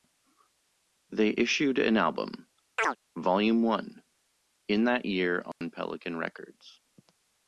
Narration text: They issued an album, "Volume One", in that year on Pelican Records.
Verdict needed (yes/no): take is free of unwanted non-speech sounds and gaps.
no